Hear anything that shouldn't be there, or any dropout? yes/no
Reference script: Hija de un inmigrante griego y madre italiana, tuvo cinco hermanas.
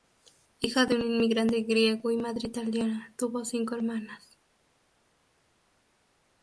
no